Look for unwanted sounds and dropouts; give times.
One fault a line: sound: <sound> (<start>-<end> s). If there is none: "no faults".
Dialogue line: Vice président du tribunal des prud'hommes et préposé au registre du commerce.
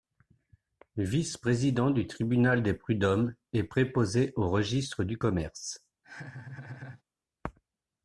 sound: laugh (6.0-7.0 s)